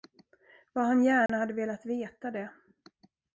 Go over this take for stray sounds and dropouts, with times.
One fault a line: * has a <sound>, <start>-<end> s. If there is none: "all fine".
* has a dropout, 1.3-1.3 s